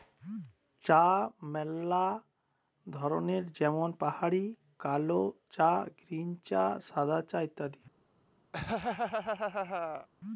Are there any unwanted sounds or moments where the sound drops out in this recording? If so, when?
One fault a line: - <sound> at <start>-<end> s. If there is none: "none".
- laugh at 8.5-10.1 s